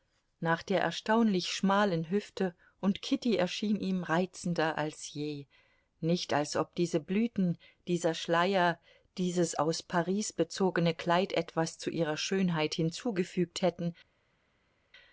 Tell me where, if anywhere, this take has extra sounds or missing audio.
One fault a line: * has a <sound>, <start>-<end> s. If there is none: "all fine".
all fine